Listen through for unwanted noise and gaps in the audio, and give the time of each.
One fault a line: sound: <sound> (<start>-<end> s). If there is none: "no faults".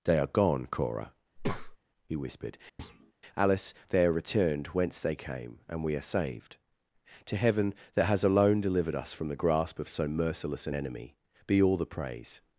sound: breath (1.4-1.8 s)
sound: thud (2.8-3.1 s)